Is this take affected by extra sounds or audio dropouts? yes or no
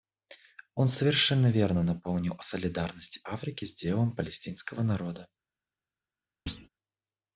yes